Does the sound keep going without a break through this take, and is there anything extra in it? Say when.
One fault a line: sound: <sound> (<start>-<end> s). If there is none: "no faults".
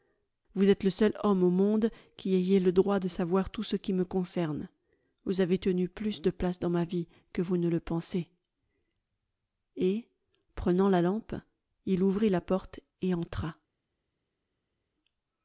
no faults